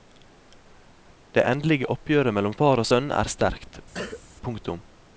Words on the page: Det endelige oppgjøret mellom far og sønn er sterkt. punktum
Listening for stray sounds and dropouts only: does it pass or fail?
fail